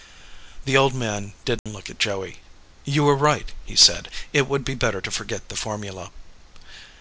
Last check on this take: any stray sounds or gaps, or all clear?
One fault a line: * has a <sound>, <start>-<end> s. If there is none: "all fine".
* has a dropout, 1.6-1.7 s